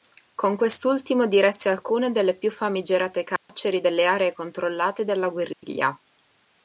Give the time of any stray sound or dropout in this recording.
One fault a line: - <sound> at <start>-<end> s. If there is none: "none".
- dropout at 3.4-3.5 s
- dropout at 5.5-5.6 s